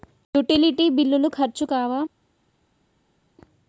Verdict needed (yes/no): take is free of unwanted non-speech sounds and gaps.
yes